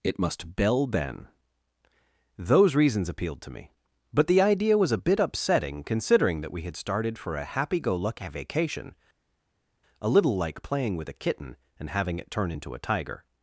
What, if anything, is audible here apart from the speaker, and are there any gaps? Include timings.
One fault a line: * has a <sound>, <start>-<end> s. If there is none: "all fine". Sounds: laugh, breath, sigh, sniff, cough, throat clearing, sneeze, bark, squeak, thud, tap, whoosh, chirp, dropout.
all fine